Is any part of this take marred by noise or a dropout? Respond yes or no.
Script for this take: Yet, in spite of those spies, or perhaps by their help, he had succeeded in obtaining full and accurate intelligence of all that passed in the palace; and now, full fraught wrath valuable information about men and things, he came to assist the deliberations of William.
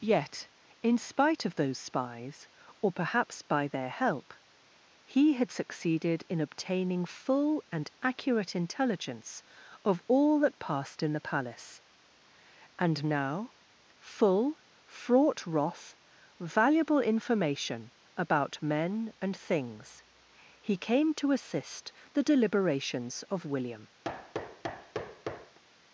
yes